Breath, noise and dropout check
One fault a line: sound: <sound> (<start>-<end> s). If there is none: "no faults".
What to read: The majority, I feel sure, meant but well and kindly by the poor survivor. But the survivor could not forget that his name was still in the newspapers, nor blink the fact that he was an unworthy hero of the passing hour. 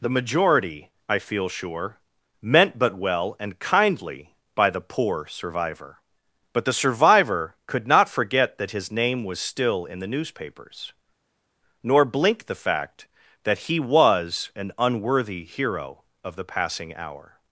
no faults